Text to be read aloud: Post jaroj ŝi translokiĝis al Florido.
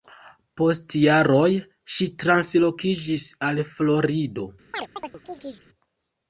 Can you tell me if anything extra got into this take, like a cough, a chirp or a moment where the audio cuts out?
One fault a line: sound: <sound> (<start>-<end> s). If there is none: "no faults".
sound: chirp (4.7-5.7 s)